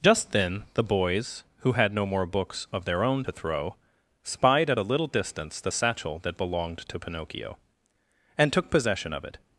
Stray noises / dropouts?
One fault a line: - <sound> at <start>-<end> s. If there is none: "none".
none